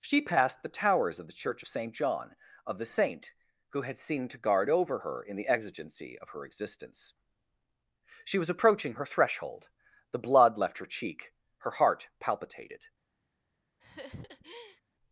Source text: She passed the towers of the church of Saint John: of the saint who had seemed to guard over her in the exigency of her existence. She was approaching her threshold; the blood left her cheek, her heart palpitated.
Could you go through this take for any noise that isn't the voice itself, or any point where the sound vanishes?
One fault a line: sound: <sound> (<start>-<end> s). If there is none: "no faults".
sound: laugh (13.8-14.8 s)